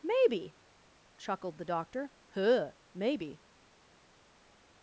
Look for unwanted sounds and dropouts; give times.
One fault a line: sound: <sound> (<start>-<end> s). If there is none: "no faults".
no faults